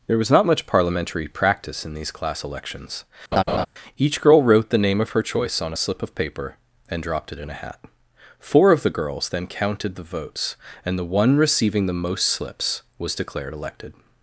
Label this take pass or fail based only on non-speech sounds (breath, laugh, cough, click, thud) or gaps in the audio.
fail